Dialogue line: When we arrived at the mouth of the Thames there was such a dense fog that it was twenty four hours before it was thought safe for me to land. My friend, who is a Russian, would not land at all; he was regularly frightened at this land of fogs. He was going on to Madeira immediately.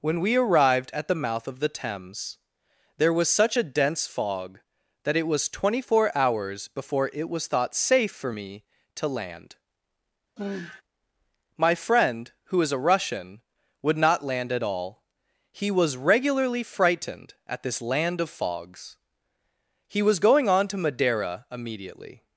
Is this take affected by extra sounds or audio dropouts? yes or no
yes